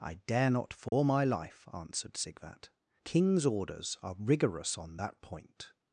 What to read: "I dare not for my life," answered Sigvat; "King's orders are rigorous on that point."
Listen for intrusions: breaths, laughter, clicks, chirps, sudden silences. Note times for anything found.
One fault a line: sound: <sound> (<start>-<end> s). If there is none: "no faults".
sound: dropout (0.9-0.9 s)